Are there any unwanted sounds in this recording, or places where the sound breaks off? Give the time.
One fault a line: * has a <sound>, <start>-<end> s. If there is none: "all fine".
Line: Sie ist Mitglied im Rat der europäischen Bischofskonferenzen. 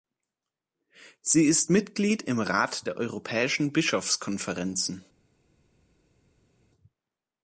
all fine